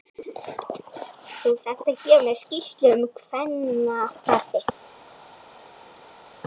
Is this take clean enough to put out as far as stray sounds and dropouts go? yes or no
yes